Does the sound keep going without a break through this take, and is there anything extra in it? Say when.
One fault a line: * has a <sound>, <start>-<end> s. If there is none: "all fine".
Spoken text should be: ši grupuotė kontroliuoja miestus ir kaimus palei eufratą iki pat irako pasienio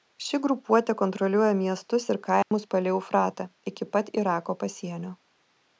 * has a dropout, 2.4-2.5 s